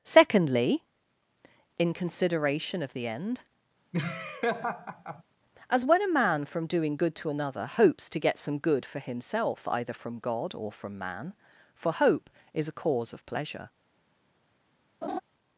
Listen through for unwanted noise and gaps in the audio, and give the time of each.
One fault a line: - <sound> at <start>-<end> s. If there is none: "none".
- laugh at 3.9-5.2 s
- laugh at 15.0-15.2 s